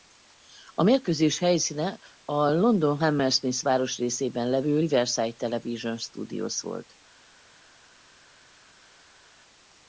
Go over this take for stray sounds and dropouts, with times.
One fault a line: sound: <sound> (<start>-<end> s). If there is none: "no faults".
no faults